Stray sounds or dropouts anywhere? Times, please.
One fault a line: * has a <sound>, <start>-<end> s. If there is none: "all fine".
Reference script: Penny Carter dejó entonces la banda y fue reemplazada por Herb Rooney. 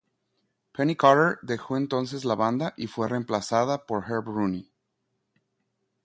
all fine